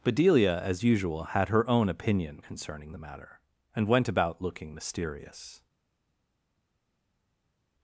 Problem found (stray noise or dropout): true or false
false